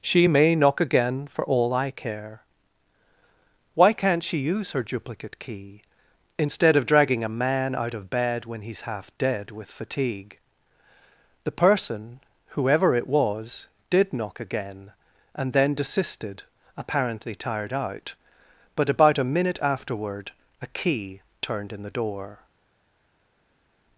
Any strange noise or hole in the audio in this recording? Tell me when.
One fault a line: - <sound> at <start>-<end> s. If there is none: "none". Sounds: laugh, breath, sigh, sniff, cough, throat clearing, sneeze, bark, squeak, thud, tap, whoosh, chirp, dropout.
none